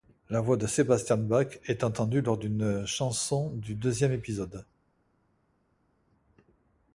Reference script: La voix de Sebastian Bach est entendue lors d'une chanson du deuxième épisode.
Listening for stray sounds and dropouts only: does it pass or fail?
pass